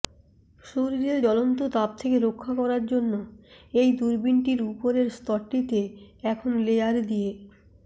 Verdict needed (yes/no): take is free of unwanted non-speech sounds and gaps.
yes